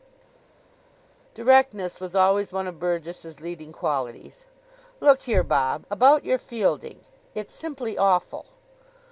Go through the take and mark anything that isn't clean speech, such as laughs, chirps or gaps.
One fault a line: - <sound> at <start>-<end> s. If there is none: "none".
none